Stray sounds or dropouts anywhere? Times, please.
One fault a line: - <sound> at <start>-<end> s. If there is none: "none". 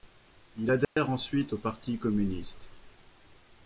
- dropout at 0.8-1.0 s